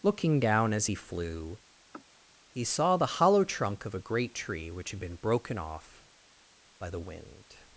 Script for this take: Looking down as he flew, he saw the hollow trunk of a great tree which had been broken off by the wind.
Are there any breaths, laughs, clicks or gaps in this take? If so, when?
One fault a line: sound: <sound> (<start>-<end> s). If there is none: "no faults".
sound: sniff (1.9-2.1 s)